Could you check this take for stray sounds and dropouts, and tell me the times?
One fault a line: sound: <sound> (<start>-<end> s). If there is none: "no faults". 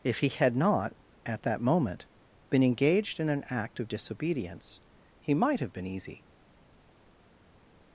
no faults